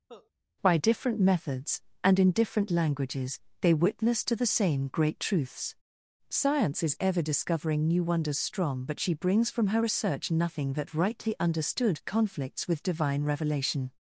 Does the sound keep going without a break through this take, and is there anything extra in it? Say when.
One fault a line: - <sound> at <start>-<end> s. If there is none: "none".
- cough at 0.1-0.3 s